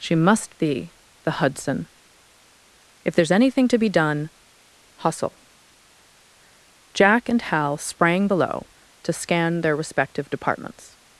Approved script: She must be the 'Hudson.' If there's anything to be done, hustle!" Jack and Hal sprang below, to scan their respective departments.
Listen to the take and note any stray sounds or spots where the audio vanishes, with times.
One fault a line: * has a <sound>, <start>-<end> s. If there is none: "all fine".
all fine